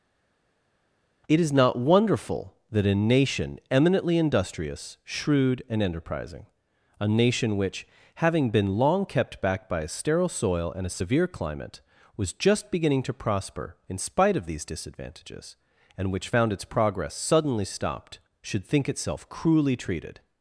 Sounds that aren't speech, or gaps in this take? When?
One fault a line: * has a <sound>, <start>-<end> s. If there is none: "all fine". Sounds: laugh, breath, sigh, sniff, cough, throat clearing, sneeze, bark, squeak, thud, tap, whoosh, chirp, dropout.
all fine